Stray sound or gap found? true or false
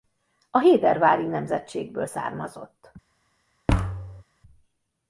true